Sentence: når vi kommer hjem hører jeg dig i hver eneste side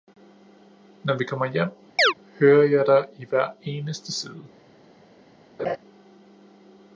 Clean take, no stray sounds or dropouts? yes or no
no